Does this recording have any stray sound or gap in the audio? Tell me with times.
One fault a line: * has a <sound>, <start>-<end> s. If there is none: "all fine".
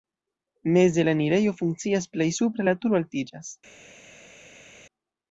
all fine